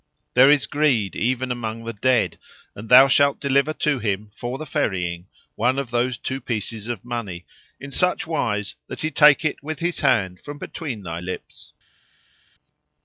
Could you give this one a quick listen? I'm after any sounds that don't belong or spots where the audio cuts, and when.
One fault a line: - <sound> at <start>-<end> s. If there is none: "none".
none